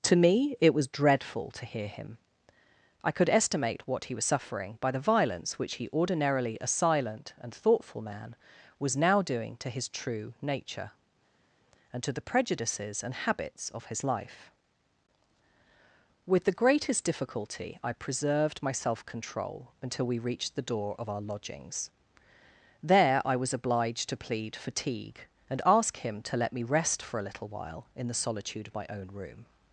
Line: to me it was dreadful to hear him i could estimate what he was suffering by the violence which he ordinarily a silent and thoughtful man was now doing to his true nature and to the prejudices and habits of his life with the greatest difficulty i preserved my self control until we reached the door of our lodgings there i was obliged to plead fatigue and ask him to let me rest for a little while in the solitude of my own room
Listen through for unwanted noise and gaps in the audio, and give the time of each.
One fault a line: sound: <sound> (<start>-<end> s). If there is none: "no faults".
no faults